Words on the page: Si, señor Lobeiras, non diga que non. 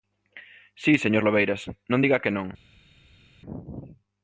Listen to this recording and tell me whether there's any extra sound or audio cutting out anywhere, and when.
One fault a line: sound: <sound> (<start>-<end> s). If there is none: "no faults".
no faults